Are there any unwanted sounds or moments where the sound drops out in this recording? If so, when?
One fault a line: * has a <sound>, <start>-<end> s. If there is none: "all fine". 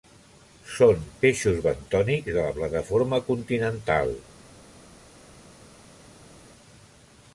all fine